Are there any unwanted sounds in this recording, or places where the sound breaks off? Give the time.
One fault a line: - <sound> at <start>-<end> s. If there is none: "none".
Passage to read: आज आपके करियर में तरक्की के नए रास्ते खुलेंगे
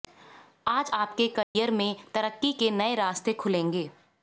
- dropout at 1.4-1.6 s